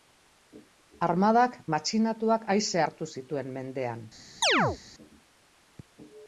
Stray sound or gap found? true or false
true